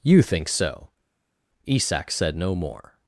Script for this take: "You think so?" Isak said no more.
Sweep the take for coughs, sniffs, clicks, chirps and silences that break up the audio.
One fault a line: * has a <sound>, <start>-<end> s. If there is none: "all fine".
all fine